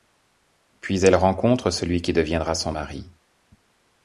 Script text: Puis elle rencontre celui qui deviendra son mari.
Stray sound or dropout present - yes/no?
no